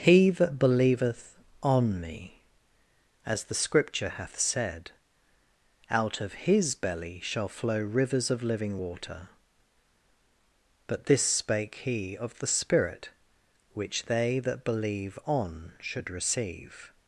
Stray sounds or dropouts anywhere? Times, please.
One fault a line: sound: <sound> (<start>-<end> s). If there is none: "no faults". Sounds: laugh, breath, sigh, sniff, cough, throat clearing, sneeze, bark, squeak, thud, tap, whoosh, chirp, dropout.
no faults